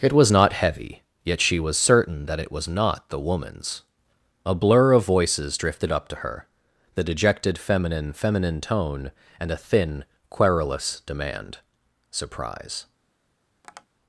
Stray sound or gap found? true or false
true